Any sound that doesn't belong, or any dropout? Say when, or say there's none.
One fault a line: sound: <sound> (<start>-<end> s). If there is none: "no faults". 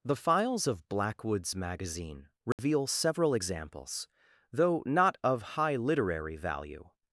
sound: dropout (2.5-2.6 s)